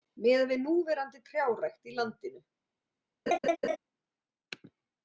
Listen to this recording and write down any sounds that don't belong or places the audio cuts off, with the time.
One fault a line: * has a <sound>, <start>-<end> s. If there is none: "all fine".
* has a laugh, 3.3-3.8 s